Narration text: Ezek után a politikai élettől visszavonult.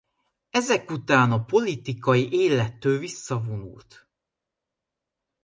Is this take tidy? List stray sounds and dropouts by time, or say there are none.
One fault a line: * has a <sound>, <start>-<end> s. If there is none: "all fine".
all fine